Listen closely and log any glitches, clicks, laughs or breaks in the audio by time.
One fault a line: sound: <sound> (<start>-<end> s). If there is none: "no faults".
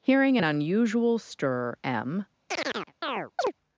sound: chirp (2.5-3.5 s)